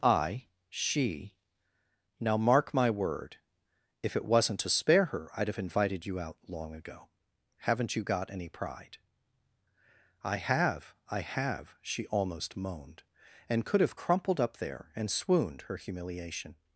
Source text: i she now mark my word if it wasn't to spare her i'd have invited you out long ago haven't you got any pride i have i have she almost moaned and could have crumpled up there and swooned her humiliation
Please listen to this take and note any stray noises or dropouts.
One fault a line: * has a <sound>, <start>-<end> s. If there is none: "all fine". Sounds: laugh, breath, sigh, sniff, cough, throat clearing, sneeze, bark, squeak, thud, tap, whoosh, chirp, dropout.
all fine